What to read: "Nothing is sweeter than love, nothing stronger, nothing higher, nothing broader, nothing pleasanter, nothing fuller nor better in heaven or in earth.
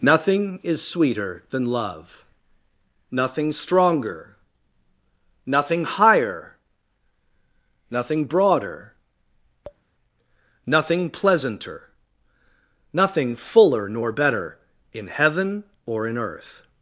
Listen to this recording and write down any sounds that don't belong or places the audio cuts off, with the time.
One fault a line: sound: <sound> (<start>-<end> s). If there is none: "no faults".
sound: tap (9.6-9.8 s)